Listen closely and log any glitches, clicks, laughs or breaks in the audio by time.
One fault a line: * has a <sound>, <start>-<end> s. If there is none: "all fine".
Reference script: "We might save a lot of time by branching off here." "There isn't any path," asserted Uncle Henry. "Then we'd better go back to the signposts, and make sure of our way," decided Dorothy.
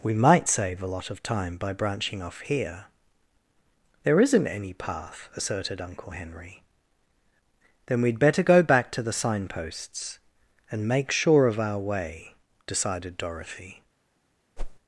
* has a whoosh, 14.6-14.8 s